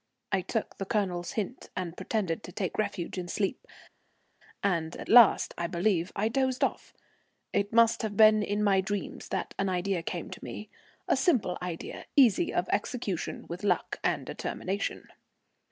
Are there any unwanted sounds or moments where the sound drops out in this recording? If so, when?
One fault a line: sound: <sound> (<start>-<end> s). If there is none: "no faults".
no faults